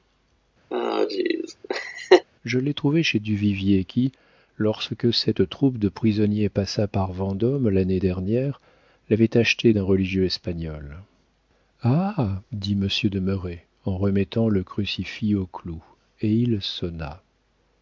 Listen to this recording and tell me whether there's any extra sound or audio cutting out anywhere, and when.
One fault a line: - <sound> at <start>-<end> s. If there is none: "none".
- laugh at 0.7-2.3 s